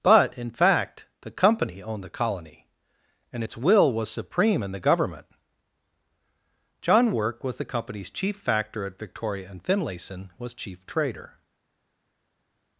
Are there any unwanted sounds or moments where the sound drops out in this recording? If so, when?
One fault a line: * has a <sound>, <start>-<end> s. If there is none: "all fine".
all fine